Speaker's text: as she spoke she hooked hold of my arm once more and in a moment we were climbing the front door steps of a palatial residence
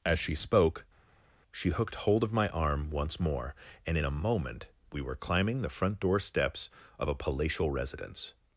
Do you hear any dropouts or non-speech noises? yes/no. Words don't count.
no